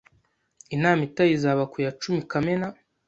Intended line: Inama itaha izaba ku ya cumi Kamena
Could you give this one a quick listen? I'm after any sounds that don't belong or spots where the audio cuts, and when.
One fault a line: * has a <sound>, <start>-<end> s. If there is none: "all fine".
all fine